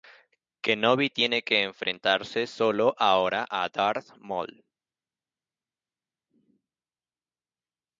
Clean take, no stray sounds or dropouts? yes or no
yes